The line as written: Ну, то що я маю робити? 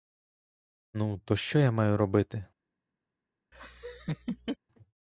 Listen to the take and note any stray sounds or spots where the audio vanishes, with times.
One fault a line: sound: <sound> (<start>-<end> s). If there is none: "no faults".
sound: laugh (3.5-4.6 s)